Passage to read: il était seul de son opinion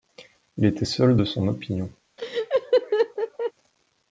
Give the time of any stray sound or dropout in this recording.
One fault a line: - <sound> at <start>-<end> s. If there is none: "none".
- laugh at 2.2-3.5 s